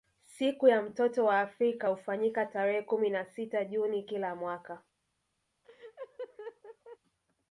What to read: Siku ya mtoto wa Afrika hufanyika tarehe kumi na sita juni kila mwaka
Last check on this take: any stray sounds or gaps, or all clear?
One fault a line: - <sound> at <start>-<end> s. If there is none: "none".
- laugh at 5.6-7.0 s